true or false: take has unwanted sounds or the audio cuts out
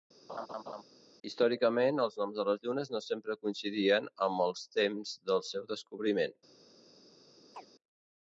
true